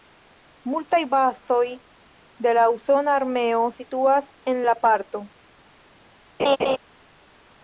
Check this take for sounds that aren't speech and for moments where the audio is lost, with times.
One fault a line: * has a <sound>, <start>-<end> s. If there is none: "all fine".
* has a laugh, 6.4-6.8 s